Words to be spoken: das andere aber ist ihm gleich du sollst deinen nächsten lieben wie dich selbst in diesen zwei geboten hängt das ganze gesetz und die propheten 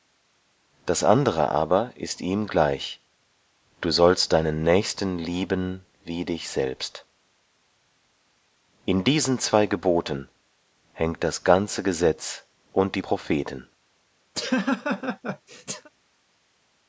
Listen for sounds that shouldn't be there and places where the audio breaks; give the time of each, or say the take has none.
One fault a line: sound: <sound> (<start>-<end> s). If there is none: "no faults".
sound: laugh (14.3-15.9 s)